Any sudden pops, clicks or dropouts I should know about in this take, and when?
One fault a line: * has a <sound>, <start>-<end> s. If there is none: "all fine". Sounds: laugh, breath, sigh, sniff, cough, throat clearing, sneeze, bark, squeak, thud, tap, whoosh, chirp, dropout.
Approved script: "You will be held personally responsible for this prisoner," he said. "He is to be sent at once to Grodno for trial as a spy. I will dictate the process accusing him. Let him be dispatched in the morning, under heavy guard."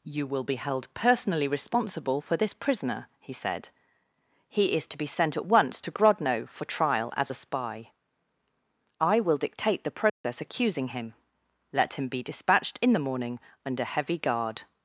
* has a dropout, 10.1-10.2 s